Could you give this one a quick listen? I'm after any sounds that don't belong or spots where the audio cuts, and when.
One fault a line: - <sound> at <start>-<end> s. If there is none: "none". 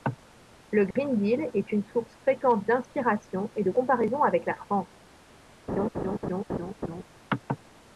- dropout at 0.9-1.0 s
- laugh at 5.7-7.0 s